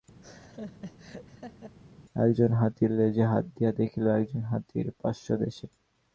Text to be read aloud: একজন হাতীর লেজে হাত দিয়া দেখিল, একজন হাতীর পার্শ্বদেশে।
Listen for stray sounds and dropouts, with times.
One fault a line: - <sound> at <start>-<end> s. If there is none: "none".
- laugh at 0.2-1.7 s